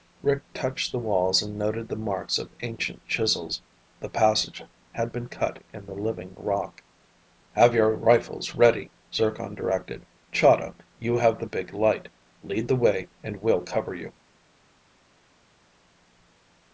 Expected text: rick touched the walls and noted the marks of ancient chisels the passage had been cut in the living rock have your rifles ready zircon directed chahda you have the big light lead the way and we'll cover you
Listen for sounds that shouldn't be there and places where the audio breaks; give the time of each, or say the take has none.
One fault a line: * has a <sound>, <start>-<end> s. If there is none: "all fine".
all fine